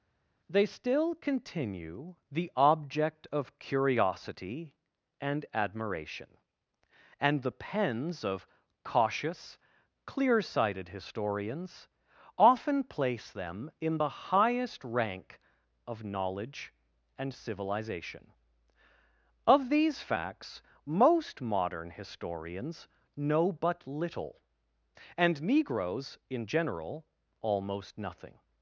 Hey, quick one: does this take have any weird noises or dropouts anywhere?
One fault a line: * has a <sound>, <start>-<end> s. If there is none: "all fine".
all fine